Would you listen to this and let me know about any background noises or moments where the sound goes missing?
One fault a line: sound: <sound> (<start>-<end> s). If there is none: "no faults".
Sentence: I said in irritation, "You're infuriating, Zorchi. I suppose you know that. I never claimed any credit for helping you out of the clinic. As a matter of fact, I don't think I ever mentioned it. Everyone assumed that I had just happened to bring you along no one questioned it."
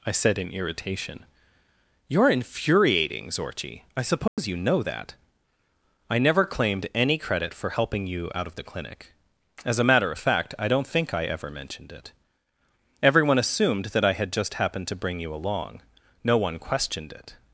sound: dropout (4.3-4.4 s)